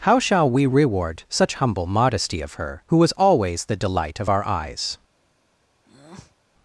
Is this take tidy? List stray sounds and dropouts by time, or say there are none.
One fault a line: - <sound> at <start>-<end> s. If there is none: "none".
- breath at 5.8-6.4 s